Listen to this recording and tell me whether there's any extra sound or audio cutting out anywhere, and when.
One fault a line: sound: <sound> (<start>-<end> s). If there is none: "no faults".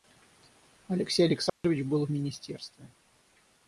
sound: dropout (1.5-1.6 s)